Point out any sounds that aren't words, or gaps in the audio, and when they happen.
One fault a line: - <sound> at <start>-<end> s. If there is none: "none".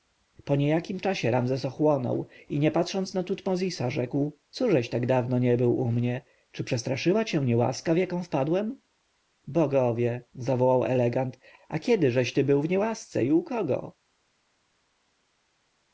none